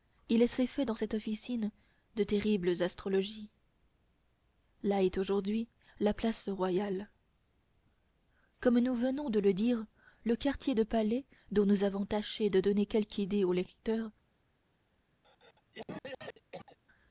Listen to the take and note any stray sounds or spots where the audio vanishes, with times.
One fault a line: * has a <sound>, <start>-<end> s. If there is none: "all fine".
* has a cough, 15.2-16.8 s